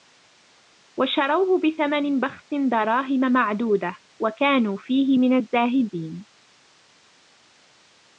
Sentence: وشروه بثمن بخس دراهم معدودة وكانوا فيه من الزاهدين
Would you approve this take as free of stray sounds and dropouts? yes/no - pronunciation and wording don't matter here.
yes